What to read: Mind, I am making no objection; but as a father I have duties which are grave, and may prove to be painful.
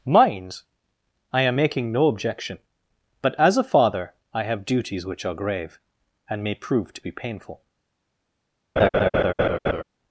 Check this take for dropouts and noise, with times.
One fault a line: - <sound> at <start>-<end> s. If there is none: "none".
- laugh at 8.8-9.8 s